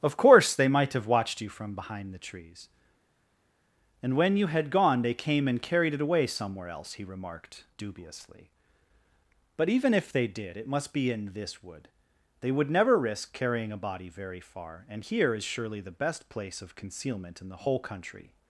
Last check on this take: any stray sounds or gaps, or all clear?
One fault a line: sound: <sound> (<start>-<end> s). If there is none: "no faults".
no faults